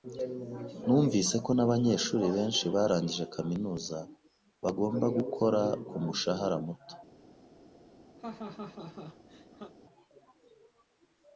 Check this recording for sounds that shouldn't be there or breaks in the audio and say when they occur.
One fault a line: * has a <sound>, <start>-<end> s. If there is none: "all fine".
* has a laugh, 8.2-9.7 s